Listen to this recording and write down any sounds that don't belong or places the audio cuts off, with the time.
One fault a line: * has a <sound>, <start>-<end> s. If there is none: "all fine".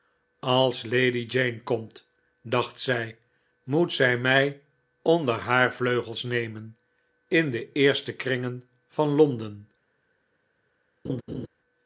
* has a laugh, 11.0-11.5 s